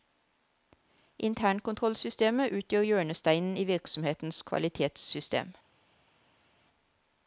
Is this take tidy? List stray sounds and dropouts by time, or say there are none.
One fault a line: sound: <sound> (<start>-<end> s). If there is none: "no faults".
no faults